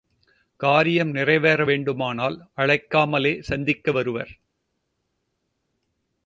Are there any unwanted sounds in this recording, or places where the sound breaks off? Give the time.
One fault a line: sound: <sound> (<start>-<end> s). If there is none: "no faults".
no faults